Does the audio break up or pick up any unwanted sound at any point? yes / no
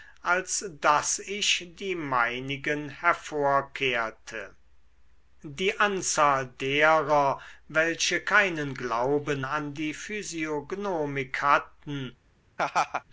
yes